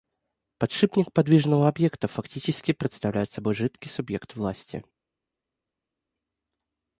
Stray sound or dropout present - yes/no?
no